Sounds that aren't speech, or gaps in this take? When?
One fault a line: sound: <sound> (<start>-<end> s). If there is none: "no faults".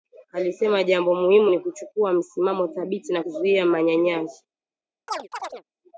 sound: chirp (5.1-5.6 s)